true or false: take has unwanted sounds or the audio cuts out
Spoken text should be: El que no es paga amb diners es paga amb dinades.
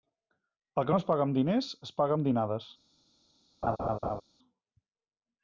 true